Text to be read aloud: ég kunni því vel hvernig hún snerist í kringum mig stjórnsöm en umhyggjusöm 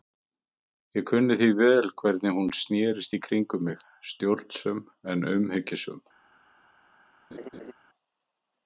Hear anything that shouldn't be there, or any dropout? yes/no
yes